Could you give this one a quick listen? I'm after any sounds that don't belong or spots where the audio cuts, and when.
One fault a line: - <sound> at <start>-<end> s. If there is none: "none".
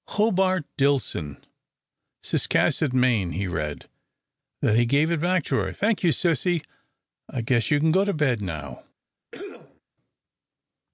- cough at 9.3-9.8 s